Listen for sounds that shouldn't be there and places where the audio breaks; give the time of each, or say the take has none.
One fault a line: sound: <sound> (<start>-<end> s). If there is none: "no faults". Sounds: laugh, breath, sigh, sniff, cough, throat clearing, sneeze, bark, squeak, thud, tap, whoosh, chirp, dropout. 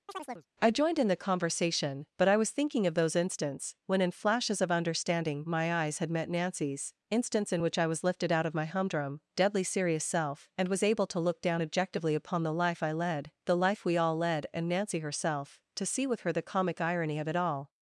sound: chirp (0.1-0.5 s)